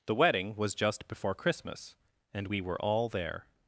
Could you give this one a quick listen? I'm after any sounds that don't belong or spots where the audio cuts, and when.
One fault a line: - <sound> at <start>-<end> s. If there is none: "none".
none